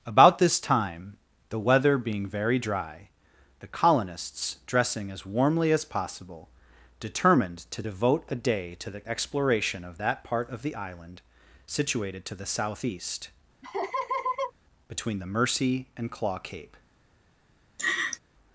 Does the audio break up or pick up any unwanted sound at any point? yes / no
yes